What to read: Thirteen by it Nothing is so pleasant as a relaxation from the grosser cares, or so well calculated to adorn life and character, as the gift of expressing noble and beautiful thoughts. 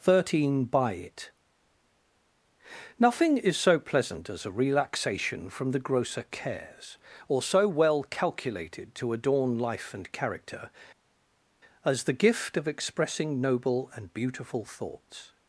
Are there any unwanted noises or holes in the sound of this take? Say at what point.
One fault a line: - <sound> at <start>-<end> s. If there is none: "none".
none